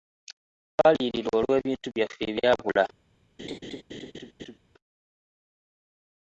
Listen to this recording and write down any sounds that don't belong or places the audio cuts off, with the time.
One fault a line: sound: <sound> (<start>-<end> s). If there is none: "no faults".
sound: laugh (3.4-4.6 s)